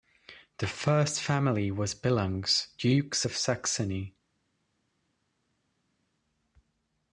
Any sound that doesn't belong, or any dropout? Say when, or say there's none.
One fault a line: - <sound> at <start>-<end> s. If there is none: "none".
none